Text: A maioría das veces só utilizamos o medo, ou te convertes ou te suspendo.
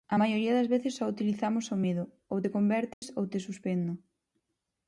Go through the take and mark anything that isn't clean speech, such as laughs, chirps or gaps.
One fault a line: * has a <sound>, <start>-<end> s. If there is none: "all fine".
* has a dropout, 2.9-3.0 s